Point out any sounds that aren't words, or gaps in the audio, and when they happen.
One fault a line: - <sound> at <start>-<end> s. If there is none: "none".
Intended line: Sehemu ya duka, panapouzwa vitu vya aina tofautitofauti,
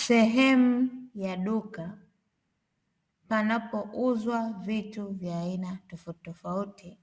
none